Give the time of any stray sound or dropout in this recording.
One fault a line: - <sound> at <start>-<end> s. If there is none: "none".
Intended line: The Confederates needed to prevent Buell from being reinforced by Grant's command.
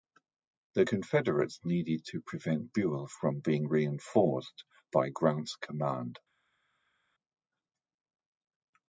none